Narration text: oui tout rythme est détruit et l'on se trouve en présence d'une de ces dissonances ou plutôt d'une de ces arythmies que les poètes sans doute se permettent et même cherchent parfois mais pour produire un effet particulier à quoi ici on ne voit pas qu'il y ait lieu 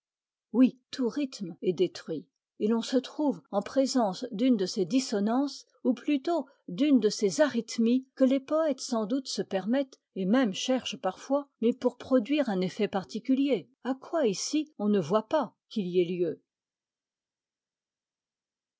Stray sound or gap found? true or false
false